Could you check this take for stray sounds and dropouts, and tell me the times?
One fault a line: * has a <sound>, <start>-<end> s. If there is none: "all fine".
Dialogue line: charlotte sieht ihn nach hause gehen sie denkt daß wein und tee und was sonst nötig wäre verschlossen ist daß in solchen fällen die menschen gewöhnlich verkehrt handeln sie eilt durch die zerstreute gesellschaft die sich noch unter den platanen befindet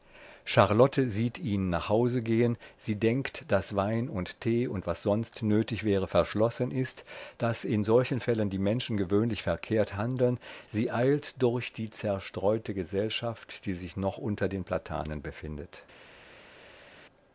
all fine